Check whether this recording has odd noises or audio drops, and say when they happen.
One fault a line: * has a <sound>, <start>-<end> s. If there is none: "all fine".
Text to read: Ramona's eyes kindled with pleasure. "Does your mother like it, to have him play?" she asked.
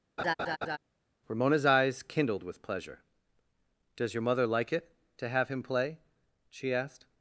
* has a laugh, 0.2-0.8 s